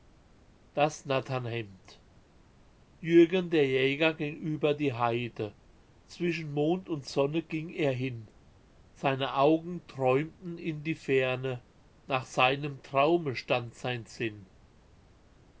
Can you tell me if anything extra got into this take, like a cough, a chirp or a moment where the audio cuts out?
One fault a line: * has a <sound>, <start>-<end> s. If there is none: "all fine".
all fine